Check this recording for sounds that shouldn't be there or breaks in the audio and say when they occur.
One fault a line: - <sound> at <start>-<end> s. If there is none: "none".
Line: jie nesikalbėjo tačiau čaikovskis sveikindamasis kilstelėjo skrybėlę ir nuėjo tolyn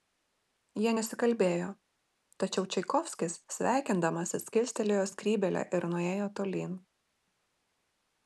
none